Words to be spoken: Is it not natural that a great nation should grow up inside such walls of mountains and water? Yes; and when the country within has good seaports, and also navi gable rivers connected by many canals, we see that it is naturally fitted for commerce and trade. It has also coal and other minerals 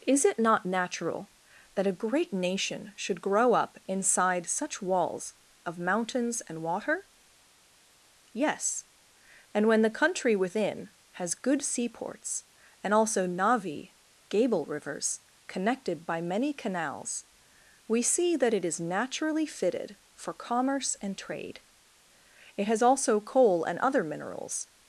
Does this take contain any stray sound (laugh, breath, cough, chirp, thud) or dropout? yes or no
no